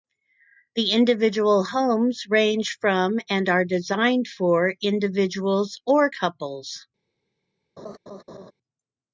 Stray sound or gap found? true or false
true